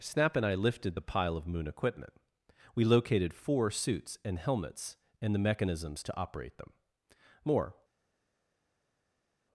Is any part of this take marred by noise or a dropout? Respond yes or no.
no